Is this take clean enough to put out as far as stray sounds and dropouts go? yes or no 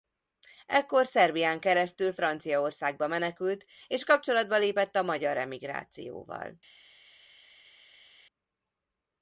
yes